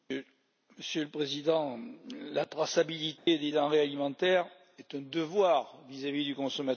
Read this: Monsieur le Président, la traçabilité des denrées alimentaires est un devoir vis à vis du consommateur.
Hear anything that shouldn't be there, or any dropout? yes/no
yes